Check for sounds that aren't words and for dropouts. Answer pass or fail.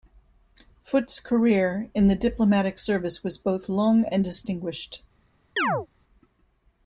fail